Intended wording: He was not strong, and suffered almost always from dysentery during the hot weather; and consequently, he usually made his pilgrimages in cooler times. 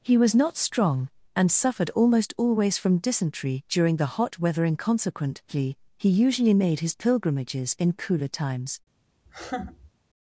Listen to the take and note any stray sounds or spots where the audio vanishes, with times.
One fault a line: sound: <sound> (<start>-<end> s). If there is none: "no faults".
sound: laugh (9.3-9.9 s)